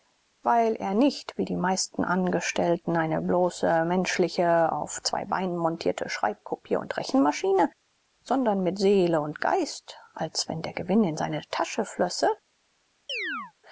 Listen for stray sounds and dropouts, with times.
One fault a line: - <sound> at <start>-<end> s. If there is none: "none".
- chirp at 13.1-13.5 s